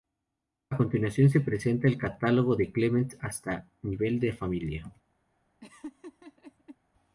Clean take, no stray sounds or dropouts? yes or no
no